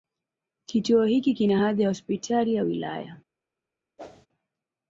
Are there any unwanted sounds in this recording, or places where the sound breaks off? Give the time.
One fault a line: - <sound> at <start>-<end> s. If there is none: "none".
- whoosh at 4.0-4.3 s